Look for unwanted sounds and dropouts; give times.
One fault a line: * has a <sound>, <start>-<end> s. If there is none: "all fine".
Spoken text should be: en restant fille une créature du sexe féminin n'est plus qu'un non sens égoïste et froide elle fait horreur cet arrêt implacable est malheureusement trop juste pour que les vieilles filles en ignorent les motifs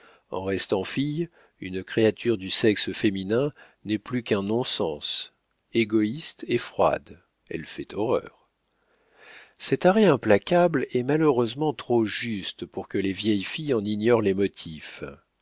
all fine